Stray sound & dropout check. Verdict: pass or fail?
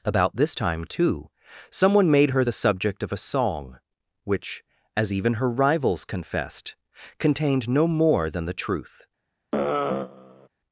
fail